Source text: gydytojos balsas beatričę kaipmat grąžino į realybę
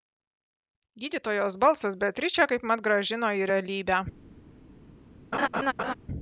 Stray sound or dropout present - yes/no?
yes